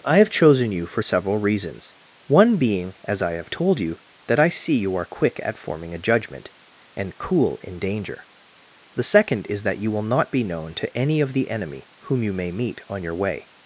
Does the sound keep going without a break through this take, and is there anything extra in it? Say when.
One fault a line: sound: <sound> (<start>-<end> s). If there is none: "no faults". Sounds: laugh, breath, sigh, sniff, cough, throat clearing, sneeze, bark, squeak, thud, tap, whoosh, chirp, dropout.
no faults